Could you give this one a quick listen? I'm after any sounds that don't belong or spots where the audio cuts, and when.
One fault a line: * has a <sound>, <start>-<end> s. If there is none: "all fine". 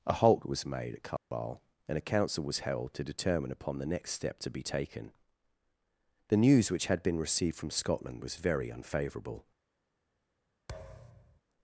* has a dropout, 1.2-1.3 s
* has a thud, 10.7-11.4 s